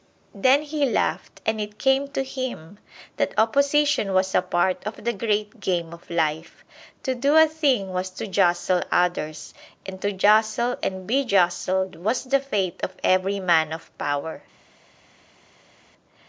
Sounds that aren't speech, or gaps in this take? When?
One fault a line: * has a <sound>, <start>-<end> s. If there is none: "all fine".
all fine